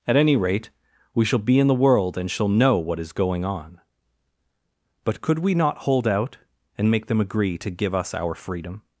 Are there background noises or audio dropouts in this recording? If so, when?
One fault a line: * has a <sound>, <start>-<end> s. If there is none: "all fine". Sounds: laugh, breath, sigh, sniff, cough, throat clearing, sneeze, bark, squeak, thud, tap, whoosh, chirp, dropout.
all fine